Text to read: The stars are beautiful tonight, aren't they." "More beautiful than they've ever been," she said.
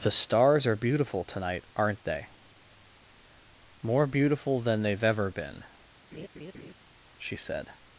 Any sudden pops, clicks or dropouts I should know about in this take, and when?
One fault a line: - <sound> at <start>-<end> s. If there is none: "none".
- laugh at 6.1-6.7 s